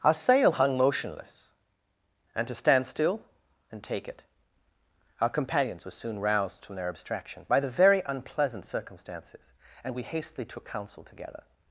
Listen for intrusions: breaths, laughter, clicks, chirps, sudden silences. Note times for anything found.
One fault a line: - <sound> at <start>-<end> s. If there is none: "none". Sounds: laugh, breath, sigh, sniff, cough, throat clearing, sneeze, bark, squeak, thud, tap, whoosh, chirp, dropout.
none